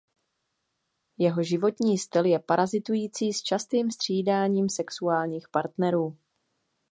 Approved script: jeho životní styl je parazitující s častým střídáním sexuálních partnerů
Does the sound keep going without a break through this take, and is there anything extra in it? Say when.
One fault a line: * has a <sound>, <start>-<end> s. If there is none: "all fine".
all fine